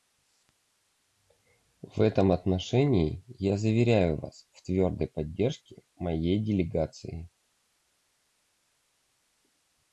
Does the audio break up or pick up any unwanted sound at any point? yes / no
no